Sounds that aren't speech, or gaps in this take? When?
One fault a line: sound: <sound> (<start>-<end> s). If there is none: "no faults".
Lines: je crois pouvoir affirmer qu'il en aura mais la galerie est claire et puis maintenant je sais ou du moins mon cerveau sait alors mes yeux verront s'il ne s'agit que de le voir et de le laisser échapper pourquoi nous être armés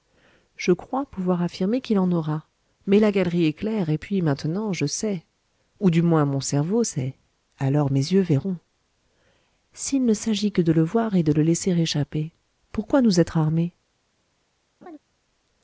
sound: laugh (14.8-15.0 s)